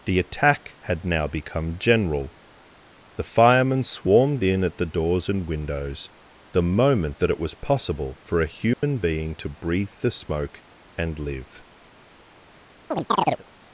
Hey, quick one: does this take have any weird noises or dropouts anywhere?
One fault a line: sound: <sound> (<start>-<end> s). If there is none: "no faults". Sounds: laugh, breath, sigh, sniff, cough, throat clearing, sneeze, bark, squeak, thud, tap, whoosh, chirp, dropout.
sound: dropout (8.7-8.8 s)
sound: chirp (12.9-13.4 s)